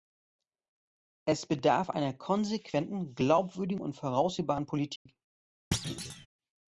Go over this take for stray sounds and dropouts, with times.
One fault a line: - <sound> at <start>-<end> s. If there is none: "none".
- dropout at 5.0-5.1 s
- thud at 5.7-6.3 s